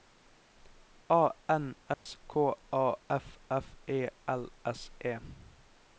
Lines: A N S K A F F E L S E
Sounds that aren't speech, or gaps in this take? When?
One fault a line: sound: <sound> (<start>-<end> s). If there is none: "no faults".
sound: dropout (1.9-2.1 s)